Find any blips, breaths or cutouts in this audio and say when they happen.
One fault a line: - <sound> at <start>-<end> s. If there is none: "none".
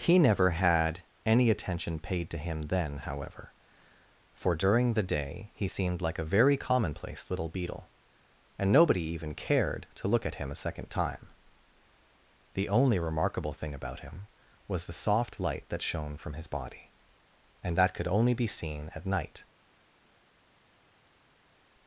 none